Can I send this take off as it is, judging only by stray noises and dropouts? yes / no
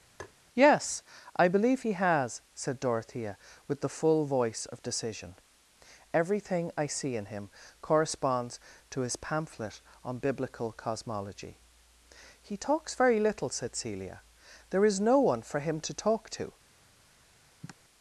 no